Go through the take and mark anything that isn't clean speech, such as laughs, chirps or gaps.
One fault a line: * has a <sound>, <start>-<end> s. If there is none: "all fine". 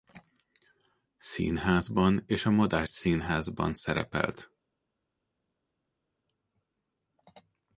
all fine